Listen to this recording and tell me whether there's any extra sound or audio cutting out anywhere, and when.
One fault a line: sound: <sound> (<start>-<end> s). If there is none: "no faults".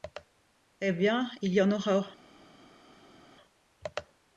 no faults